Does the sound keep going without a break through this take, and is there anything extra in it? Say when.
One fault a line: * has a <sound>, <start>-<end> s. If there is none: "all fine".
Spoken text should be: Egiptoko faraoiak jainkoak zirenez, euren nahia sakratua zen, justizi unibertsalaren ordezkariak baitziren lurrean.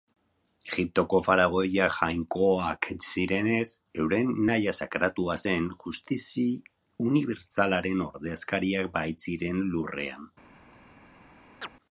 * has a chirp, 11.6-11.7 s